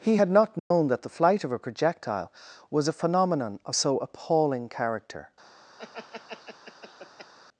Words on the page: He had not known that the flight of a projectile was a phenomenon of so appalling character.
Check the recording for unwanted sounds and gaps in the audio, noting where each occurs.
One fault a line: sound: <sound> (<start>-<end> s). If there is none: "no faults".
sound: dropout (0.6-0.7 s)
sound: laugh (5.8-7.3 s)